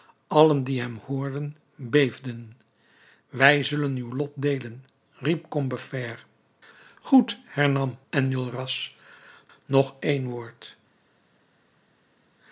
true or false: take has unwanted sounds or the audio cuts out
false